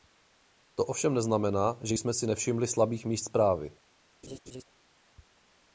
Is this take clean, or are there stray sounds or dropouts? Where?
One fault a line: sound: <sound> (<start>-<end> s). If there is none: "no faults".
sound: laugh (4.2-4.6 s)